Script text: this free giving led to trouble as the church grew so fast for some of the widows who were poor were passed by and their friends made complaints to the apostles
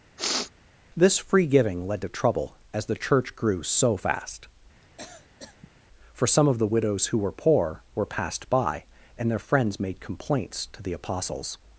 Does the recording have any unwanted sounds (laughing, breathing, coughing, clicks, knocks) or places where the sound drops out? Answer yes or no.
yes